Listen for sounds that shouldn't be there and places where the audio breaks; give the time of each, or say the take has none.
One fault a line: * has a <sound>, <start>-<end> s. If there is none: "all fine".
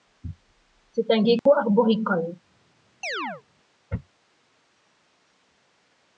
* has a dropout, 1.4-1.5 s
* has a chirp, 3.0-3.4 s